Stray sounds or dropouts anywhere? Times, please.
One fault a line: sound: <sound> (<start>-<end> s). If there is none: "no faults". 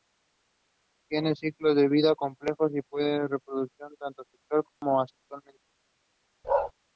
sound: dropout (4.7-4.8 s)
sound: bark (6.4-6.7 s)